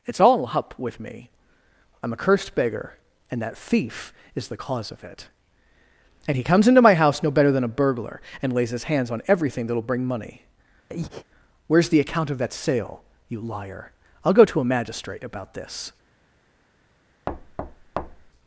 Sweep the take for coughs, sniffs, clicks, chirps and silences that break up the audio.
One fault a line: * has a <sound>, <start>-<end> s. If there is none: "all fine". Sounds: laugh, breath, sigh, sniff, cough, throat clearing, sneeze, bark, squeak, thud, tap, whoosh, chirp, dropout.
* has a breath, 10.9-11.2 s
* has a thud, 17.3-18.3 s